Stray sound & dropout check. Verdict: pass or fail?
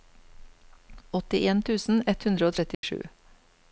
fail